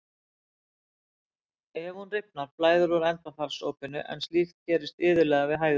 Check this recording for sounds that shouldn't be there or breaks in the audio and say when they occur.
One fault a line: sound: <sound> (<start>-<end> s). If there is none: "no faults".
no faults